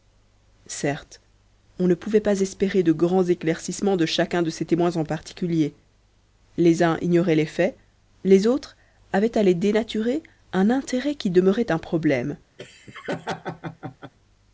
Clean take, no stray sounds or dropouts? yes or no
no